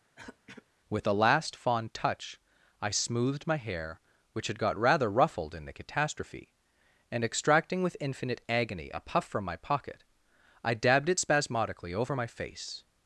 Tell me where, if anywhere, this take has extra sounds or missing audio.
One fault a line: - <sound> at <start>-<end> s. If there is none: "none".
- throat clearing at 0.2-0.7 s